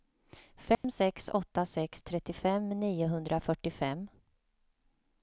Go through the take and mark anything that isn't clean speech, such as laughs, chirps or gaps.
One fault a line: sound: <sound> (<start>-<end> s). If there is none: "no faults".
sound: dropout (0.7-0.8 s)